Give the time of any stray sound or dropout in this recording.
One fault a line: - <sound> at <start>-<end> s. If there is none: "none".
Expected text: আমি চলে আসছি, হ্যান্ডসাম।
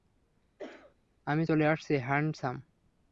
- cough at 0.6-1.0 s